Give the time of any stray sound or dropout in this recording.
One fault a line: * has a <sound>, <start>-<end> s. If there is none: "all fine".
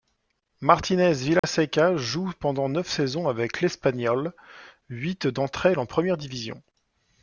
* has a dropout, 1.4-1.4 s